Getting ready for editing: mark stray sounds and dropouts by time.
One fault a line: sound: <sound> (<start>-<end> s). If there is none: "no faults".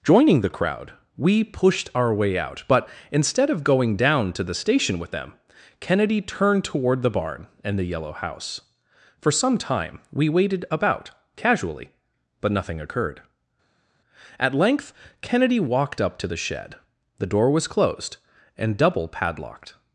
no faults